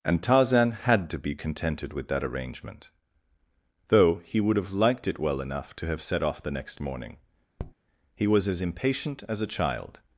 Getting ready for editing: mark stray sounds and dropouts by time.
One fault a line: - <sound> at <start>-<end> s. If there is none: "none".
- tap at 7.6-7.7 s